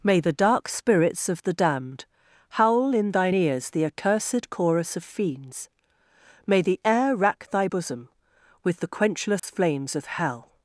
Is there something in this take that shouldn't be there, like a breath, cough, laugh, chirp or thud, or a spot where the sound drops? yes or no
yes